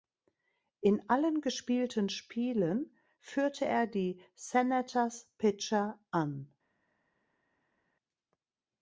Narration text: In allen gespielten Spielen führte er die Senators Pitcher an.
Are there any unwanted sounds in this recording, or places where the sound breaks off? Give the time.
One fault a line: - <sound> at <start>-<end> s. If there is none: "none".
none